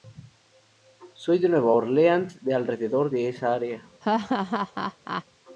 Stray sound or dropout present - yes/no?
yes